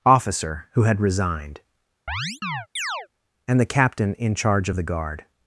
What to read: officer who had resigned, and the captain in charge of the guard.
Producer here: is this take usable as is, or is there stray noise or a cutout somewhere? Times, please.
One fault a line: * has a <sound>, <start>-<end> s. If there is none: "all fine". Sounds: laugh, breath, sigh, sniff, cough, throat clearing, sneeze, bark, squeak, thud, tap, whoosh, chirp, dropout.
* has a chirp, 2.1-3.1 s